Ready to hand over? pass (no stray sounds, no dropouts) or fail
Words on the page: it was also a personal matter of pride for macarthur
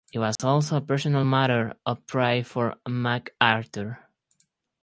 fail